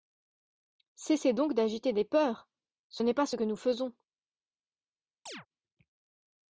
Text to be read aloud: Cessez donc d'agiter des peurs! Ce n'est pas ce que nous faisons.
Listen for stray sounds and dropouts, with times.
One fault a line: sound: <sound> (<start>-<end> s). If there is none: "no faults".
sound: chirp (5.3-5.5 s)